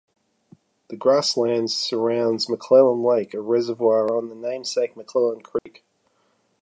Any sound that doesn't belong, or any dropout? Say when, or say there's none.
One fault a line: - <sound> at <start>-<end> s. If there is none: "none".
- dropout at 5.6-5.7 s